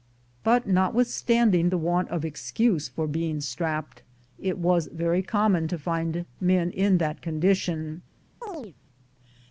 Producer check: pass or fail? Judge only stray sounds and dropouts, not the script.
fail